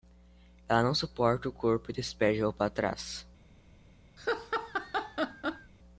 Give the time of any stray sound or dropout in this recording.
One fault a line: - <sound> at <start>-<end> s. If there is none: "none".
- laugh at 4.2-5.7 s